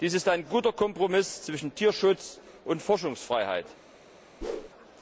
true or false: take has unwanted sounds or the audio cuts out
true